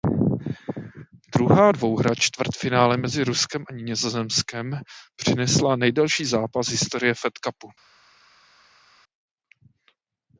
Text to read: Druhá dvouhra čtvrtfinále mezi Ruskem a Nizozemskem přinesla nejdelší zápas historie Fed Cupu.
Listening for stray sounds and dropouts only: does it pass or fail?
pass